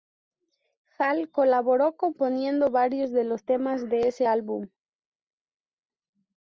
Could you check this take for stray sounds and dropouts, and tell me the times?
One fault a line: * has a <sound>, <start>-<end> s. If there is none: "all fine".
all fine